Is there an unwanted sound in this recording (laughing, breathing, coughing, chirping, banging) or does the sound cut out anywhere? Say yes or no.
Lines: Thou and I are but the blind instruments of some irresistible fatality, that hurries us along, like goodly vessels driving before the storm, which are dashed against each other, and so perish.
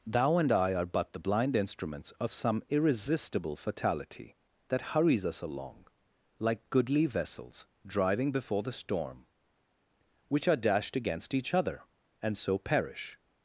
no